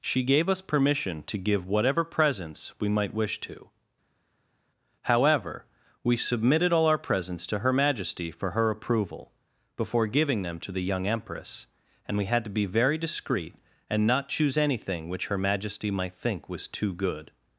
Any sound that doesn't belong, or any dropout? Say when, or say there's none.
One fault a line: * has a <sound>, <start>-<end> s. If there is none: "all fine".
all fine